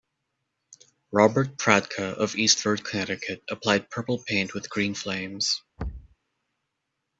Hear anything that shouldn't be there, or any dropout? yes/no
yes